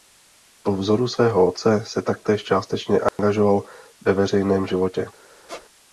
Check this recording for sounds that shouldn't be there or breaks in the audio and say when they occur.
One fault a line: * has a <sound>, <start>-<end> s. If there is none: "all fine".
* has a dropout, 3.1-3.2 s
* has a squeak, 5.5-5.7 s